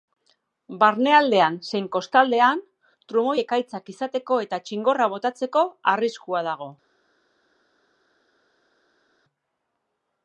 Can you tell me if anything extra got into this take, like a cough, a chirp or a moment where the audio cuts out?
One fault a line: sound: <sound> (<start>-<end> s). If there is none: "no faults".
no faults